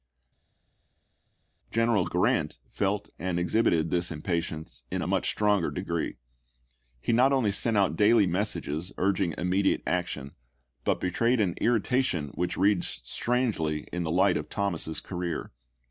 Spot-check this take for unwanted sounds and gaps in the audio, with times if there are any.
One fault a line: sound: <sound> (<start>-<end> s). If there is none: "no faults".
no faults